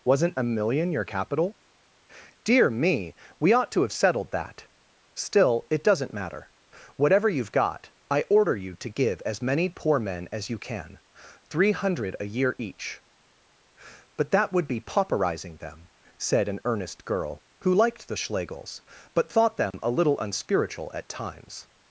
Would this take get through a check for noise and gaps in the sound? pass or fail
fail